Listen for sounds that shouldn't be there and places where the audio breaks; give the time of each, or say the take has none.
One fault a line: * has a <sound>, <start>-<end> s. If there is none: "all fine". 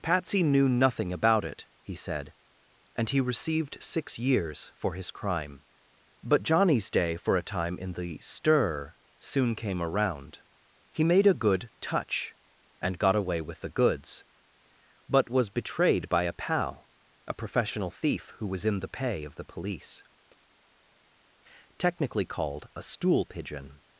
all fine